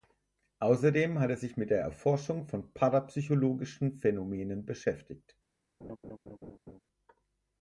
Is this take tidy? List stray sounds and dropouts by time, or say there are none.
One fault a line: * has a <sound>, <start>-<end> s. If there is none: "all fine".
* has a laugh, 5.8-6.8 s